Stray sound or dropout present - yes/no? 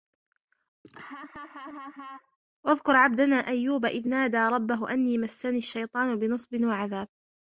yes